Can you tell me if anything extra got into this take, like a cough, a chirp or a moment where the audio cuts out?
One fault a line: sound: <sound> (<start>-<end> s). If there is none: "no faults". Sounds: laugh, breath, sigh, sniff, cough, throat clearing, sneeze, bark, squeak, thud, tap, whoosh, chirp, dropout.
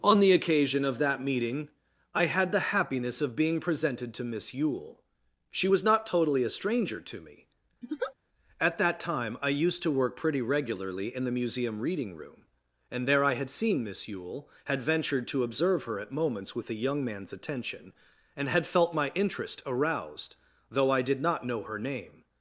sound: laugh (7.8-8.1 s)